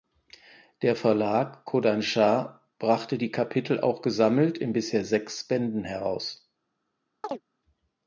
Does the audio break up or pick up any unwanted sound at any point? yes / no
yes